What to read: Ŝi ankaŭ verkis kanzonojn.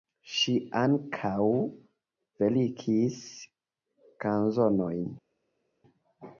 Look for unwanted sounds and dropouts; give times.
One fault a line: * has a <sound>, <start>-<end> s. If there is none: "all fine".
all fine